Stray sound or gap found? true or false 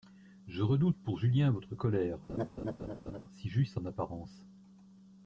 true